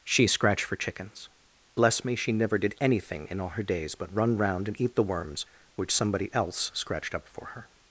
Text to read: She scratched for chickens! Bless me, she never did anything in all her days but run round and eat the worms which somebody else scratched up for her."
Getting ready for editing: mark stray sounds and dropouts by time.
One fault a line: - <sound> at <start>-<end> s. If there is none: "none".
none